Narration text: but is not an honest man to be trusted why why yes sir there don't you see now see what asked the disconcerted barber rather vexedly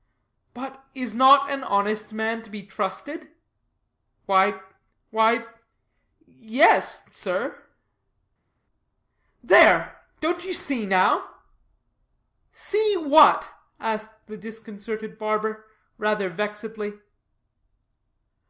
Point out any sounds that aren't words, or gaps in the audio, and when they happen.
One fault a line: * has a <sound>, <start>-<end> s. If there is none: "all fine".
all fine